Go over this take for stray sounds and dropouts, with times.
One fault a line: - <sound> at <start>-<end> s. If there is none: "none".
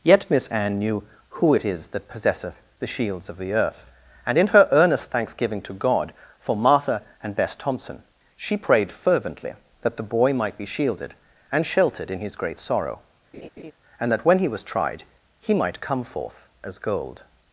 - laugh at 13.3-13.7 s